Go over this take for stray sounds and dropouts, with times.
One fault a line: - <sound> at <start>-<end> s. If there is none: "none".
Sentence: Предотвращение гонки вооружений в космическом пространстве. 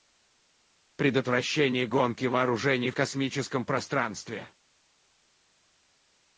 none